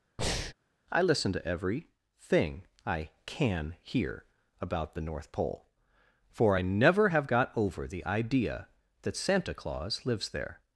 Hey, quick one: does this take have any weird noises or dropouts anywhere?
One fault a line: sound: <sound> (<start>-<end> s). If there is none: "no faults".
sound: breath (0.2-0.5 s)